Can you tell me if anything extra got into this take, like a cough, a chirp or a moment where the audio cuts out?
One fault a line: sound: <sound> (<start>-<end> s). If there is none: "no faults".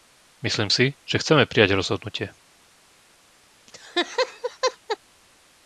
sound: laugh (3.7-5.0 s)